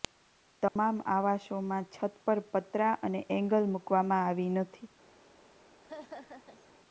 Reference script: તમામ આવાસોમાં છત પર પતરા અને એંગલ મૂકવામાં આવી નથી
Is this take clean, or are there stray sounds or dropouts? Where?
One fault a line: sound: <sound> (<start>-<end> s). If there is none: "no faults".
sound: dropout (0.7-0.8 s)
sound: laugh (5.8-6.7 s)